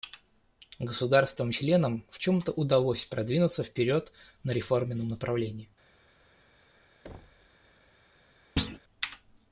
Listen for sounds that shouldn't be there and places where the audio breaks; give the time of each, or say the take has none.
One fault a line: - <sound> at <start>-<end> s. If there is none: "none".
- thud at 7.0-7.5 s
- thud at 8.6-8.8 s